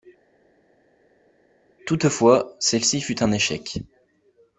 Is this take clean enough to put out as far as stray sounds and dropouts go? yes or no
yes